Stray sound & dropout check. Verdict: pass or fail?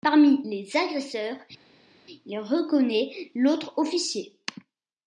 pass